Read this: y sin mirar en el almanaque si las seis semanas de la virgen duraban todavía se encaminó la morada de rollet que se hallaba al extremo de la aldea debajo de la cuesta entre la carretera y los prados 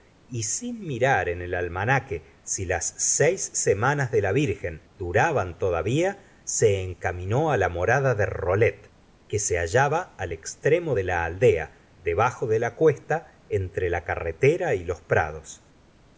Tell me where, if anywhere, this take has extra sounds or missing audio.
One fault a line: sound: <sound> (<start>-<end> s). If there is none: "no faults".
no faults